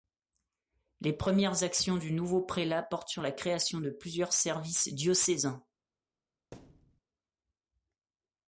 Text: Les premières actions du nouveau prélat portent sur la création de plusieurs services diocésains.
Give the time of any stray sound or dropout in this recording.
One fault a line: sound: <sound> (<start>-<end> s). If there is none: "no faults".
sound: thud (6.5-7.0 s)